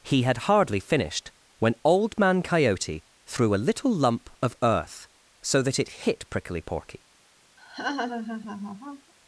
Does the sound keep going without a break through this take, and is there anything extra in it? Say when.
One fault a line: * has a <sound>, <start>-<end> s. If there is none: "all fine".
* has a laugh, 7.6-9.1 s